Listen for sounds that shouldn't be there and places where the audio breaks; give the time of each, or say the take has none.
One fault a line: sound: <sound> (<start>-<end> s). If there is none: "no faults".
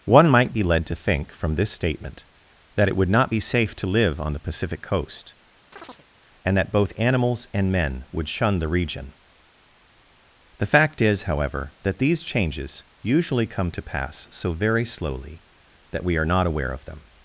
sound: chirp (5.7-6.1 s)